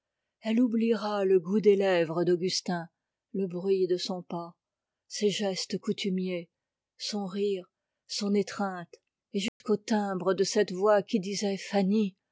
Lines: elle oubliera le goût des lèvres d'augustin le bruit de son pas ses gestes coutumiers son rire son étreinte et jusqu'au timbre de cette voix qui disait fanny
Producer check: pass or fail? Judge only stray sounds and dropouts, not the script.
fail